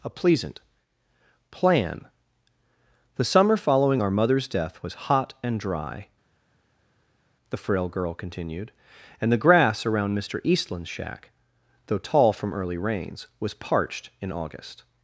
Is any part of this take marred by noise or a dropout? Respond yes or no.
no